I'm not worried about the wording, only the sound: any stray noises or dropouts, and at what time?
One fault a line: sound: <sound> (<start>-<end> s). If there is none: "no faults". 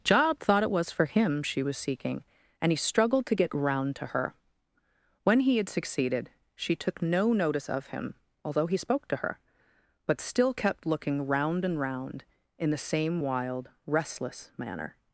no faults